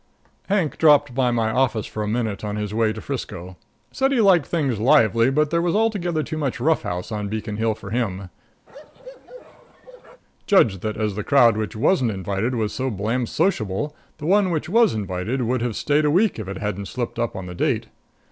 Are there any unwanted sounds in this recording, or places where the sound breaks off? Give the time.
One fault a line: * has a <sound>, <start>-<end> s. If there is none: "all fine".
* has a bark, 8.7-10.2 s